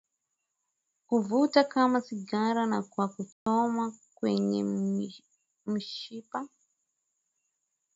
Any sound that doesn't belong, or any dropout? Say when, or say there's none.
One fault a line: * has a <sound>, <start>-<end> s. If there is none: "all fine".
* has a dropout, 3.3-3.5 s